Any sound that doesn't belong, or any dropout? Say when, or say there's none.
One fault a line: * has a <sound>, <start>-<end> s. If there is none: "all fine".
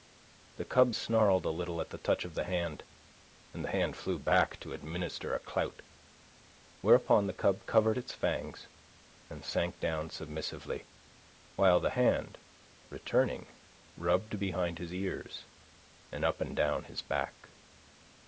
all fine